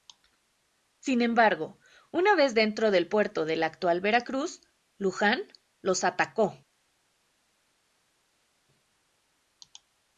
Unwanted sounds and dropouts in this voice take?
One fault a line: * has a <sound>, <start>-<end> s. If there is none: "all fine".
all fine